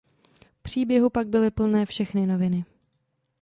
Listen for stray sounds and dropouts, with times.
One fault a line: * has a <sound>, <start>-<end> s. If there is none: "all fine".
all fine